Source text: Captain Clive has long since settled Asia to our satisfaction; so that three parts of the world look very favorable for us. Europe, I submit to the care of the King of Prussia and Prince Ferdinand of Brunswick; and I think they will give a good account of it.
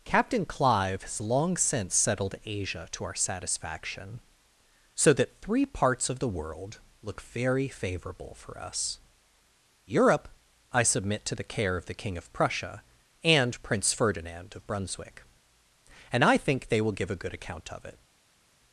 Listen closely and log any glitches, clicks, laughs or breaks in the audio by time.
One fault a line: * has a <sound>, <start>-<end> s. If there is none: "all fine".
all fine